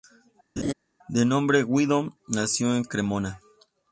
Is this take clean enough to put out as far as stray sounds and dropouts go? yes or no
no